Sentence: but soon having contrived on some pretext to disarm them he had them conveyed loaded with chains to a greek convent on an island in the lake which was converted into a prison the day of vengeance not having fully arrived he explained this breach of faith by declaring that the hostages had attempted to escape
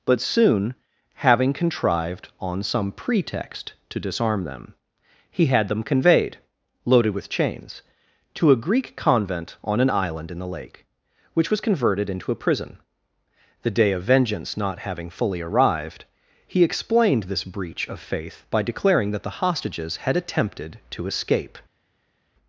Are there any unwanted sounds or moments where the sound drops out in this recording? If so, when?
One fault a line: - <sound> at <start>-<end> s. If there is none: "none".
none